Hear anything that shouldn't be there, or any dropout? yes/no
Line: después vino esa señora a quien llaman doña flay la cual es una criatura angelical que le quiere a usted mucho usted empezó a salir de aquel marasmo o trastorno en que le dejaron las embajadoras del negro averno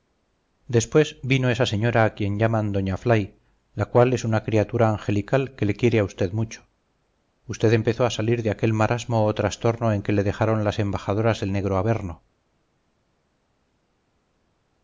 no